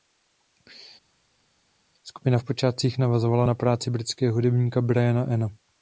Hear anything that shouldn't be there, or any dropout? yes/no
no